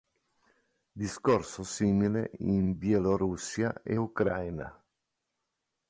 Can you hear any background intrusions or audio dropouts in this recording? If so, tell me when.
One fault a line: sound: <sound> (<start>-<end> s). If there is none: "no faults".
no faults